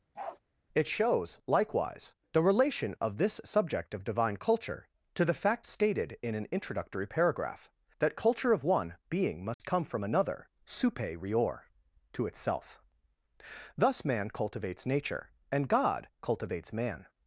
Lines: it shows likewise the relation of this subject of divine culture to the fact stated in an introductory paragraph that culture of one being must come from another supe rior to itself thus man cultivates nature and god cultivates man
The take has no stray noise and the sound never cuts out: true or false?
false